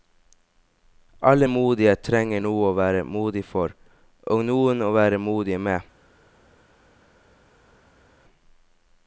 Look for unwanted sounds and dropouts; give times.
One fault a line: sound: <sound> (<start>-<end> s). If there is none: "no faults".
no faults